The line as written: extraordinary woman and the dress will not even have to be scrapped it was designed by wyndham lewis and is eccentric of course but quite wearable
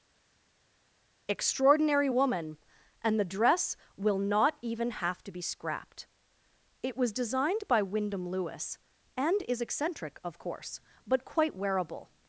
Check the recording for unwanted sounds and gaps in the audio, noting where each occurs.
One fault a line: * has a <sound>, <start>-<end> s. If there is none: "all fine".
all fine